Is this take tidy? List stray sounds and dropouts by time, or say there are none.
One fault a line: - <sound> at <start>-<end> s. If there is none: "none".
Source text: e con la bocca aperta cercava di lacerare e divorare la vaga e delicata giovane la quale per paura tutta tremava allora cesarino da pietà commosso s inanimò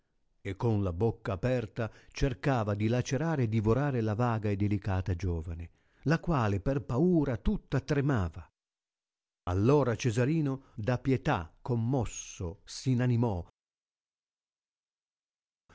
none